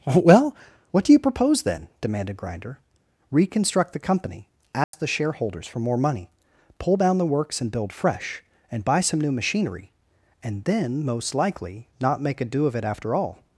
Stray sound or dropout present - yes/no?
yes